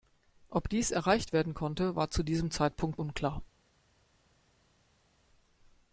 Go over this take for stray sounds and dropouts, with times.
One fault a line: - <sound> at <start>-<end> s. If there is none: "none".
none